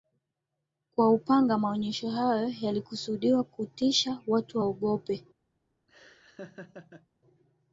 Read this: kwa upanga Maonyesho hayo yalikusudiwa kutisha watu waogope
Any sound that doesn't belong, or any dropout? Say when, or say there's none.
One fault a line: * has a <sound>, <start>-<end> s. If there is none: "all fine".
* has a laugh, 5.9-7.1 s